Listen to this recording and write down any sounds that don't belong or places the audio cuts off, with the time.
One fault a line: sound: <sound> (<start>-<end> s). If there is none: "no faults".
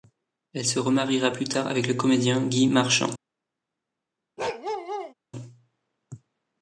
sound: bark (4.4-5.1 s)